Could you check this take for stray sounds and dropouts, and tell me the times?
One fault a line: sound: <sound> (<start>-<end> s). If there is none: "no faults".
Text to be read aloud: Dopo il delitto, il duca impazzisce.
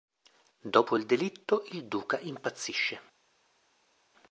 no faults